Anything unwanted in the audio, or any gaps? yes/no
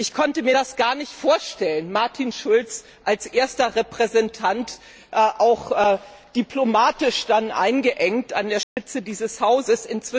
yes